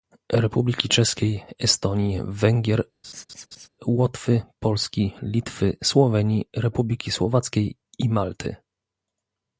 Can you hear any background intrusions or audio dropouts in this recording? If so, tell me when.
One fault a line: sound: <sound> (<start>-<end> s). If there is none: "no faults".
sound: laugh (3.0-3.7 s)